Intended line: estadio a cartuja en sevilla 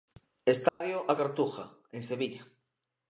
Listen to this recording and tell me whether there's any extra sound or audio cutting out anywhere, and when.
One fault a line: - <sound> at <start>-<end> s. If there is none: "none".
- dropout at 0.7-0.8 s